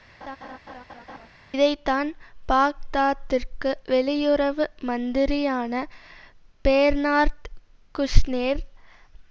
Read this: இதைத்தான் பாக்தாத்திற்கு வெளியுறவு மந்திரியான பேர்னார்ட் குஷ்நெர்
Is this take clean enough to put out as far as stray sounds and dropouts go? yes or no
no